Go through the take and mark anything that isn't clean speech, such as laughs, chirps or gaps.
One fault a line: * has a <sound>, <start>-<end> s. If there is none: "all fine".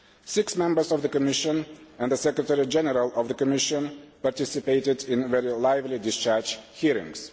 all fine